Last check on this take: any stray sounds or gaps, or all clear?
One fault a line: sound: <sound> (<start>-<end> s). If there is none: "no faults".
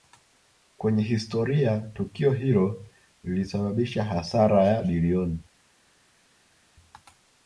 no faults